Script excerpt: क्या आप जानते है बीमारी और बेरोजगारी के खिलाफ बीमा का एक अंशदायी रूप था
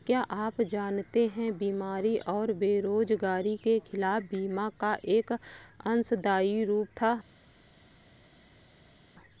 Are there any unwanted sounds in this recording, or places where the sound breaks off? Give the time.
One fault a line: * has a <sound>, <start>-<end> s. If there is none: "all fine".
all fine